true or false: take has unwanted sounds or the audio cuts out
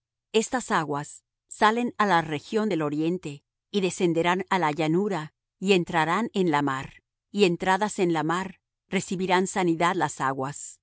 false